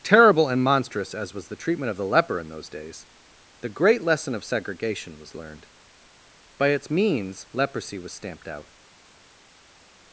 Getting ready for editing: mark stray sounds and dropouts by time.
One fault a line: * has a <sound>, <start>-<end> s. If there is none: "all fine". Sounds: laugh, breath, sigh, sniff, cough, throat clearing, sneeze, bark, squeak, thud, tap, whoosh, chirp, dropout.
all fine